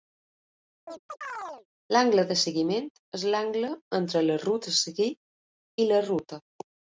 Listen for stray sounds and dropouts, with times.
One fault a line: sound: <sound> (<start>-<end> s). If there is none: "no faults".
sound: chirp (0.9-1.7 s)